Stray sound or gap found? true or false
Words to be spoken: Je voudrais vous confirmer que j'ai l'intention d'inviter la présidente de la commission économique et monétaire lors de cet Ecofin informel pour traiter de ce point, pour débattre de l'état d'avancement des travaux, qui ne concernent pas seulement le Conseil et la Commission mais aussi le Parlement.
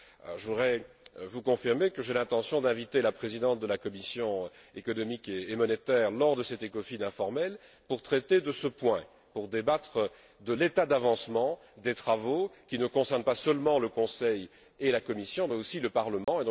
true